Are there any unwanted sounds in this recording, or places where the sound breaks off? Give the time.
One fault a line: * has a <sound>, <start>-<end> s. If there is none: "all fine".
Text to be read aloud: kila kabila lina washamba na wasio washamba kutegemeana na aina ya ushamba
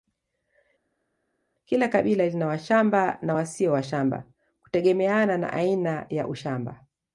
all fine